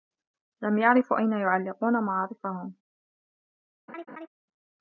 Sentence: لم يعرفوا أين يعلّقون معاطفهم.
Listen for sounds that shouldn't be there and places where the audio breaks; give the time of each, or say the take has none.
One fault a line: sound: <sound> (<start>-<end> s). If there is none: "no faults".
sound: laugh (3.9-4.3 s)